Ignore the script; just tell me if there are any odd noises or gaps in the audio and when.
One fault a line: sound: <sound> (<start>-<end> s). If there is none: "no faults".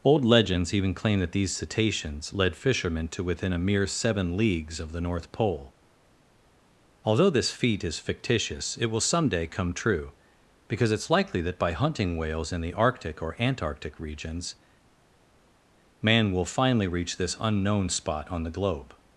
no faults